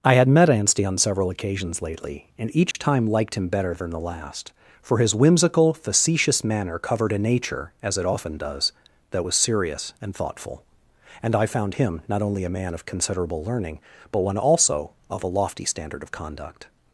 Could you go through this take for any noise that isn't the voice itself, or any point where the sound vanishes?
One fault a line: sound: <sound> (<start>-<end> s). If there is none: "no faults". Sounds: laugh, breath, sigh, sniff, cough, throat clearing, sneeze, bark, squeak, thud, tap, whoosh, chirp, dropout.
sound: dropout (2.7-2.7 s)